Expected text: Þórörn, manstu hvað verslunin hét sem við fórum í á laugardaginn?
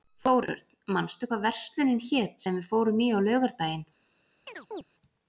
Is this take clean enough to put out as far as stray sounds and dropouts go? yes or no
no